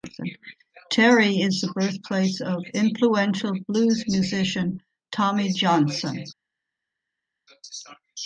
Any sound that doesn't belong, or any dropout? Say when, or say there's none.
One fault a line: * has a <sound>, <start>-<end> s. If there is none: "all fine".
all fine